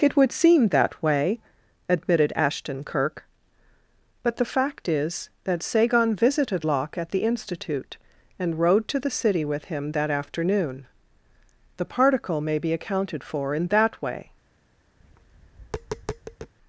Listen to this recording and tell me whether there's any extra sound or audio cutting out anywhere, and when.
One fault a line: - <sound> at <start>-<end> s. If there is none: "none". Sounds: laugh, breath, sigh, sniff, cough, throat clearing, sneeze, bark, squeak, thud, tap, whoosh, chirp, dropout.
- tap at 15.0-16.5 s